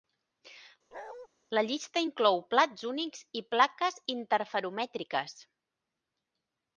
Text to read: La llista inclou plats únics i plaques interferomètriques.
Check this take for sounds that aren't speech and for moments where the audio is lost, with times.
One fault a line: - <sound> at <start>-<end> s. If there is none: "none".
- bark at 0.9-1.3 s